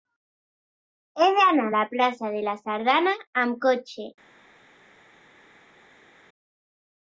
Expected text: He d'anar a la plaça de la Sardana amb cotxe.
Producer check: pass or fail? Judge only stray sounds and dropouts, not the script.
pass